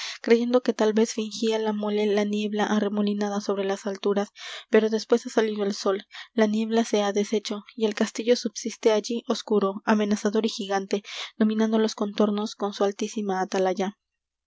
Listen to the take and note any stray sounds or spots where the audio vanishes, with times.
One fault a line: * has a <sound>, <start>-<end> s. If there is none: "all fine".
all fine